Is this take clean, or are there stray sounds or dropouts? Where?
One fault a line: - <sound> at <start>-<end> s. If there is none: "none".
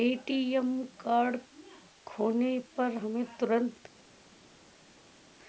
none